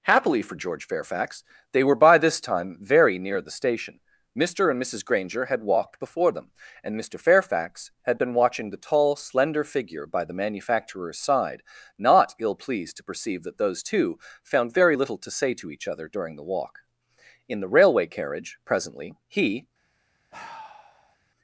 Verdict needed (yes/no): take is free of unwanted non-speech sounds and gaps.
no